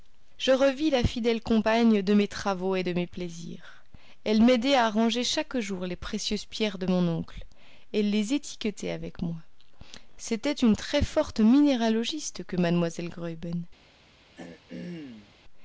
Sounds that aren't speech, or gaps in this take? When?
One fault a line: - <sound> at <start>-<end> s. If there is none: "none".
- throat clearing at 14.4-15.4 s